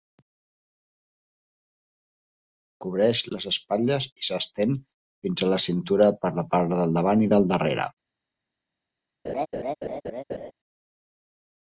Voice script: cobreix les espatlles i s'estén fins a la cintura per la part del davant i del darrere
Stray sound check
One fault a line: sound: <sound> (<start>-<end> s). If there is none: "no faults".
sound: laugh (9.2-10.5 s)